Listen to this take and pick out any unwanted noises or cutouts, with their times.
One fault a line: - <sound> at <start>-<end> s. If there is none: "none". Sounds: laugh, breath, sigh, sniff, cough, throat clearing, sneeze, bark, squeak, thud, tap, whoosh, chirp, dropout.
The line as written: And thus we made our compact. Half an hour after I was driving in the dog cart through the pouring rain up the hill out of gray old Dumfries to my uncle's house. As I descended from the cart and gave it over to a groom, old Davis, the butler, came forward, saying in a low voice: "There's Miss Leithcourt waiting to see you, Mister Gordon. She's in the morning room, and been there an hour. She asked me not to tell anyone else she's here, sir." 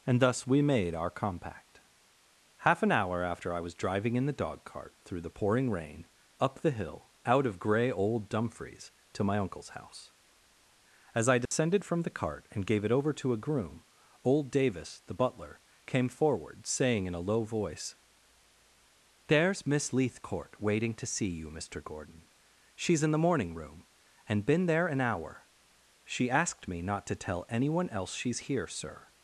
- dropout at 11.5-11.5 s